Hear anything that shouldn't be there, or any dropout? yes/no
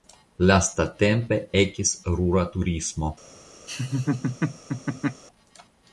yes